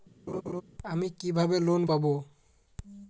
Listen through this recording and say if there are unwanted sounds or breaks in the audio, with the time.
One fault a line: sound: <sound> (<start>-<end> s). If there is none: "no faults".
sound: laugh (0.3-0.6 s)